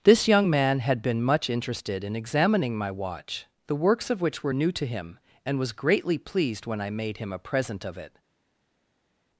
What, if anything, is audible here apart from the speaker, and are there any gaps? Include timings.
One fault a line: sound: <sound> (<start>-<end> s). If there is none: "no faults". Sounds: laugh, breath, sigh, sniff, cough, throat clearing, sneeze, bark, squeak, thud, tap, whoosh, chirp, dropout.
no faults